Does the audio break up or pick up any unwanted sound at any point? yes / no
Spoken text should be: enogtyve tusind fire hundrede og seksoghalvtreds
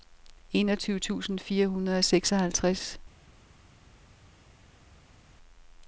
no